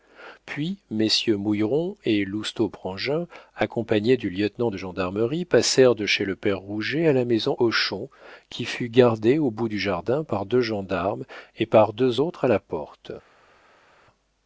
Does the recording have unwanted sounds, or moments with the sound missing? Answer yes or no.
no